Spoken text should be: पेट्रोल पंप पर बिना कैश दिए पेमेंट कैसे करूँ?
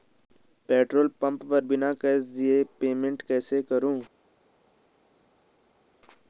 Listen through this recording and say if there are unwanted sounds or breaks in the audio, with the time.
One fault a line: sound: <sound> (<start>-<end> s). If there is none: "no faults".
no faults